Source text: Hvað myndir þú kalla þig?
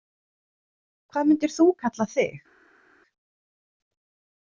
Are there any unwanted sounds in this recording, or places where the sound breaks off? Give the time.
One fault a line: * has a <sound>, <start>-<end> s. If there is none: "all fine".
all fine